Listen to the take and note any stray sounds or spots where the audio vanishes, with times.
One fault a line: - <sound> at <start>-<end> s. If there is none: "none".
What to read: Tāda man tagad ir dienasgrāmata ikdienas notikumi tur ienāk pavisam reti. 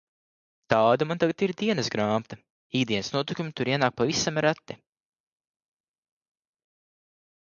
none